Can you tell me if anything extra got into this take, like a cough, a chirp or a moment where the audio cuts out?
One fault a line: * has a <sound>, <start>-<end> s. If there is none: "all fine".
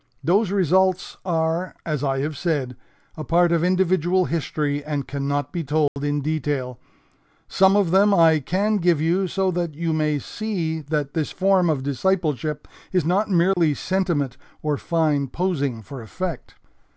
* has a dropout, 5.9-6.0 s
* has a dropout, 13.5-13.6 s